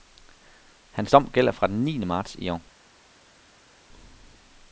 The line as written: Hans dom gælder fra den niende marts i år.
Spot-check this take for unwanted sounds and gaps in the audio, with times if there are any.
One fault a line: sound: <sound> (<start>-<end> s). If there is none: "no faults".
no faults